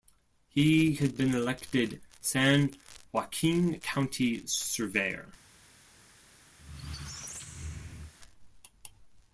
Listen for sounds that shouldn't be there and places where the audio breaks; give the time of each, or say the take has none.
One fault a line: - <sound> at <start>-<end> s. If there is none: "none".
- squeak at 6.6-8.1 s